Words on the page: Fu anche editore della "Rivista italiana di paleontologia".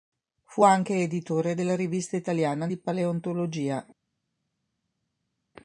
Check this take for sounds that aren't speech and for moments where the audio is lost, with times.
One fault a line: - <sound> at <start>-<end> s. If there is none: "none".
none